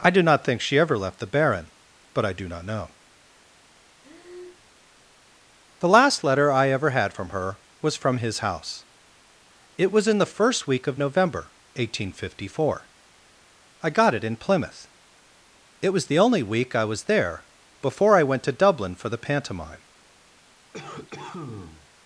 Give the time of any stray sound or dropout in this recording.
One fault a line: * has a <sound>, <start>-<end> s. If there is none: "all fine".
* has a breath, 4.0-4.7 s
* has a cough, 20.7-21.9 s